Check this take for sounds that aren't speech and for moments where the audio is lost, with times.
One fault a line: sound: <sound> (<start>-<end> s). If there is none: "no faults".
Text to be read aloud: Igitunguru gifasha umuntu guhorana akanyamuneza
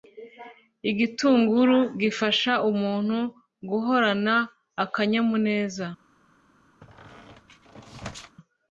sound: squeak (6.8-8.4 s)